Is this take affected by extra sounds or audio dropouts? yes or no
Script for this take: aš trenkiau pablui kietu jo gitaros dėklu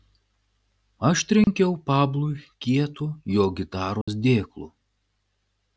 yes